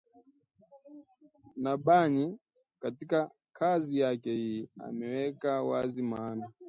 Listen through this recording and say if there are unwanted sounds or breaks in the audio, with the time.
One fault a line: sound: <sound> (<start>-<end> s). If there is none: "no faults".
no faults